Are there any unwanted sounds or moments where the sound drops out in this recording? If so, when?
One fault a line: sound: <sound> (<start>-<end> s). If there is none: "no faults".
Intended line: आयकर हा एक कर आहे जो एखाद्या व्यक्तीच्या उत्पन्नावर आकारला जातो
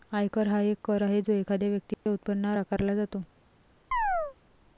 sound: dropout (1.9-2.1 s)
sound: chirp (3.9-4.4 s)